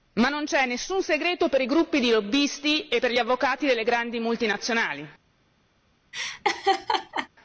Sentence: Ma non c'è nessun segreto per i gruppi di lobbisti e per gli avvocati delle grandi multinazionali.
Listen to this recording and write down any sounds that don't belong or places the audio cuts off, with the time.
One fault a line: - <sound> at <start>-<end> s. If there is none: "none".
- laugh at 6.1-7.3 s